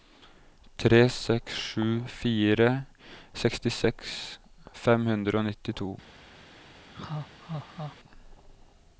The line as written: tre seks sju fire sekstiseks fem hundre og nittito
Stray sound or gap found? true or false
true